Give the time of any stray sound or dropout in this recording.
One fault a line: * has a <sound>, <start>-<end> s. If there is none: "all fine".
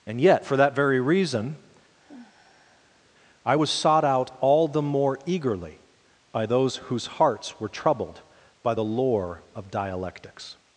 * has a sigh, 1.9-3.0 s